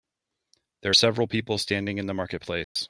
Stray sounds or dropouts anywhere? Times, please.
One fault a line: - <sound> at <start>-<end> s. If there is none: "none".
- dropout at 2.6-2.8 s